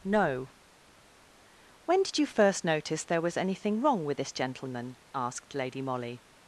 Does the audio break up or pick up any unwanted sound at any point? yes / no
no